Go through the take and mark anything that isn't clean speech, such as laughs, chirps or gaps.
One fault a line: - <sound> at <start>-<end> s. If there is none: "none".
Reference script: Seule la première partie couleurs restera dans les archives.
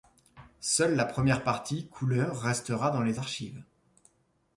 none